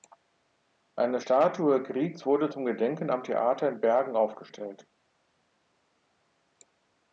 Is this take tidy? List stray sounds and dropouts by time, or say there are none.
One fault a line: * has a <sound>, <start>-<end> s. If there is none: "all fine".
all fine